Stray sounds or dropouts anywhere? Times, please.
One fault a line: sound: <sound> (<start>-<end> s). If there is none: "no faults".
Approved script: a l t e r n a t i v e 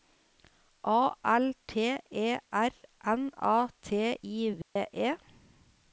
sound: dropout (4.6-4.8 s)